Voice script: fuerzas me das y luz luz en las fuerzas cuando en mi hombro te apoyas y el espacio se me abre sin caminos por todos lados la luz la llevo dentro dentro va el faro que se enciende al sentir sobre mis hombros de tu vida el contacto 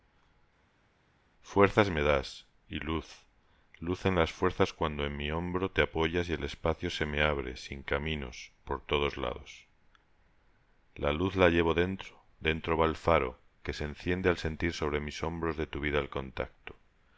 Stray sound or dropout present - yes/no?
no